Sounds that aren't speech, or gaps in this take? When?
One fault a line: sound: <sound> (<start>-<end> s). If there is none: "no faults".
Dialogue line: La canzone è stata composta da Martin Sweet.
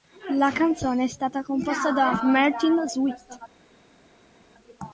no faults